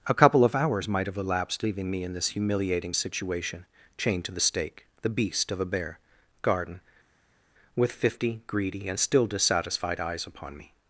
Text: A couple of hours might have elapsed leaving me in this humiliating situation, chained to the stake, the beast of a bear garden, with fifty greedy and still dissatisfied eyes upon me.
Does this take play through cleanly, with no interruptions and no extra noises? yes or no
yes